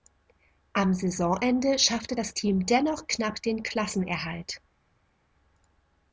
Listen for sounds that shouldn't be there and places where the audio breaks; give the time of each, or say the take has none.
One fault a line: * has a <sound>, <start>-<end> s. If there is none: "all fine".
all fine